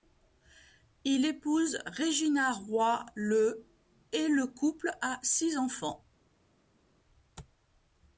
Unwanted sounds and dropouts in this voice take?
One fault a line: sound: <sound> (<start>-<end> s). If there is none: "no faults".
no faults